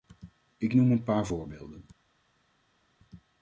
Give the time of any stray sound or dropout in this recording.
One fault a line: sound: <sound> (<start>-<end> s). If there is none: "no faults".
no faults